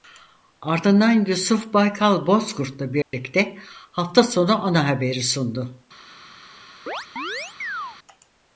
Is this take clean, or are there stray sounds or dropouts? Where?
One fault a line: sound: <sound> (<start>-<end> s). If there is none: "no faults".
sound: dropout (3.0-3.1 s)
sound: chirp (6.9-8.0 s)